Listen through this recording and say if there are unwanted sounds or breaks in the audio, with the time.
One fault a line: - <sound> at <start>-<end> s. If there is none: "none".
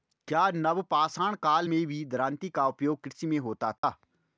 - dropout at 3.8-3.8 s